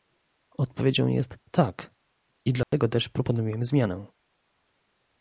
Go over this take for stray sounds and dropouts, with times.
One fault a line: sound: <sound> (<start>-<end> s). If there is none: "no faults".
sound: dropout (2.6-2.7 s)